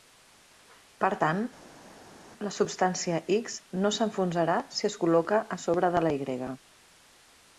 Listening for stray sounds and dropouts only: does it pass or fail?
pass